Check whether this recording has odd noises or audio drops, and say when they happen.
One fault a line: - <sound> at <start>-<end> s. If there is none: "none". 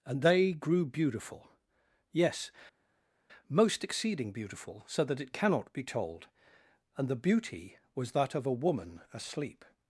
none